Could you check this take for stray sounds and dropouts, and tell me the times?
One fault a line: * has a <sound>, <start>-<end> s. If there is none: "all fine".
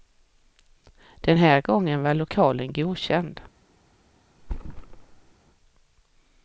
* has a thud, 4.4-5.3 s